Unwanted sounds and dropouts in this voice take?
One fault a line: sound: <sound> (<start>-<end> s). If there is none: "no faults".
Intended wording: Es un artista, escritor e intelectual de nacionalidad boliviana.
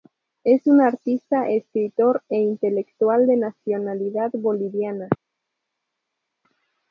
no faults